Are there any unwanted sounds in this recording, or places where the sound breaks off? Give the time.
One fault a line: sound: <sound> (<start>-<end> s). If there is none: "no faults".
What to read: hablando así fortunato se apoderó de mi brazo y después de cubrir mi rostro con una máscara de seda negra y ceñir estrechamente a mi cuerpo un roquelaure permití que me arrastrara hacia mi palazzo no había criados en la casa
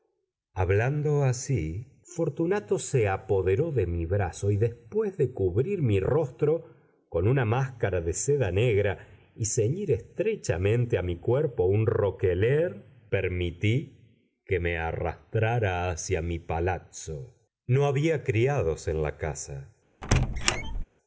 sound: squeak (20.0-20.8 s)